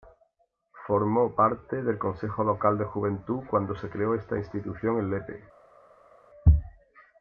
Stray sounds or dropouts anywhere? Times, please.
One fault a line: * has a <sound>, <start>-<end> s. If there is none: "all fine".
all fine